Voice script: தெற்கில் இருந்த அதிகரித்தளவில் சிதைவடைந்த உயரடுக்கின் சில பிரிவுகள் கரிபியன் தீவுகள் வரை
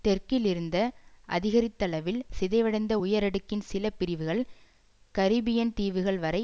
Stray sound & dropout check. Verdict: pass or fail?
pass